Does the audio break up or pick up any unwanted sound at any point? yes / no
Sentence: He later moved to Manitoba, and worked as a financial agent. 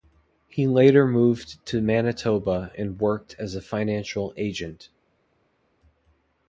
no